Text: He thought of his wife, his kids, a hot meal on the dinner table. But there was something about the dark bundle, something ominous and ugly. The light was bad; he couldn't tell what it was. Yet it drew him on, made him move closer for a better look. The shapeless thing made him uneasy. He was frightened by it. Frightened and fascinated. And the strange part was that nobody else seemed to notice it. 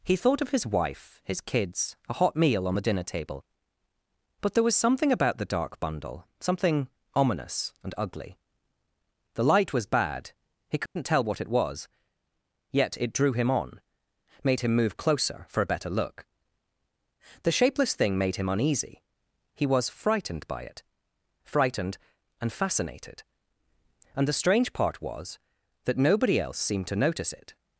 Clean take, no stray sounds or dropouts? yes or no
no